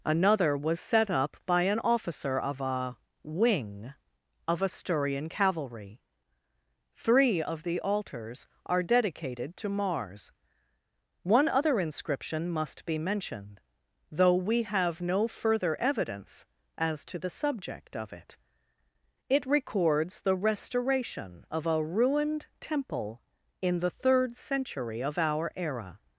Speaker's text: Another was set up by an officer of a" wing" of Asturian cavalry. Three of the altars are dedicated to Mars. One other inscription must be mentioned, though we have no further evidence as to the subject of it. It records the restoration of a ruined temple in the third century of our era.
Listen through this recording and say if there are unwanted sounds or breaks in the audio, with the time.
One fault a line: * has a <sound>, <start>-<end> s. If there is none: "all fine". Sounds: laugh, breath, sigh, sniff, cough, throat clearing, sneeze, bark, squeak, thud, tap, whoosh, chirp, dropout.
all fine